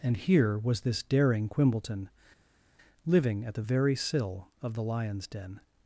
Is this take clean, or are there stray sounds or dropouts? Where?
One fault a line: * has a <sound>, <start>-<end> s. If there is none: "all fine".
all fine